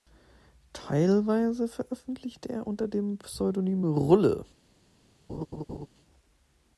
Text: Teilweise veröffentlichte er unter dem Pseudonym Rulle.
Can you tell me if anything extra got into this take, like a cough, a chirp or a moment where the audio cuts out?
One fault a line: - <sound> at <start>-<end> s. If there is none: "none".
- laugh at 5.3-5.9 s